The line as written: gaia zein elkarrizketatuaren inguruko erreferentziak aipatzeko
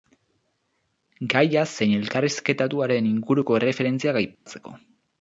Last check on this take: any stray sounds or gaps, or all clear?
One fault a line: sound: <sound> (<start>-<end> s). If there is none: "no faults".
sound: dropout (4.3-4.5 s)